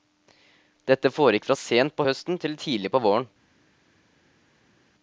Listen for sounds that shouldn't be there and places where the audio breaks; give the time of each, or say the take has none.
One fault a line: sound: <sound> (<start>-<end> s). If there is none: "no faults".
no faults